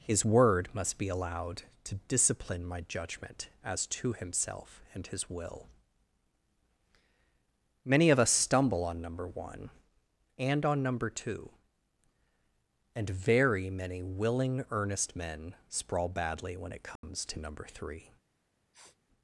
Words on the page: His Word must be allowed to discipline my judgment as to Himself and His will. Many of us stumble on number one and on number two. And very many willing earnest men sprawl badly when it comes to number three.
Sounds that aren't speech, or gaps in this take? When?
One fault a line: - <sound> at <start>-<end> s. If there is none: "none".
- dropout at 17.0-17.0 s
- sniff at 18.7-19.0 s